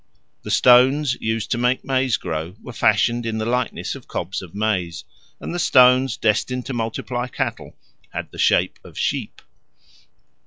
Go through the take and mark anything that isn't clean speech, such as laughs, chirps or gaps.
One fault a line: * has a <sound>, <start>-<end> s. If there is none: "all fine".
all fine